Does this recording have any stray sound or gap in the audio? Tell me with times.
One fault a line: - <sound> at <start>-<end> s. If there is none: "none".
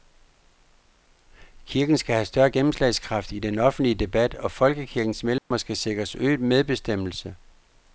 - dropout at 5.4-5.5 s